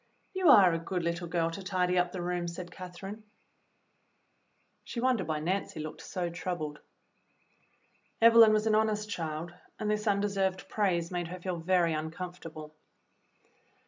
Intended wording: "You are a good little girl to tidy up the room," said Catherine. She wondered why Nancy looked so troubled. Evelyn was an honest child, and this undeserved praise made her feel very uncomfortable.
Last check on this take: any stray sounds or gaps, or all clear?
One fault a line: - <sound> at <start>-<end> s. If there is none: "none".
none